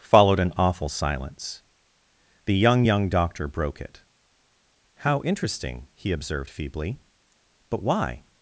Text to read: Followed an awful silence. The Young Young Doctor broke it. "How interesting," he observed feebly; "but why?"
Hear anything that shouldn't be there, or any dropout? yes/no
no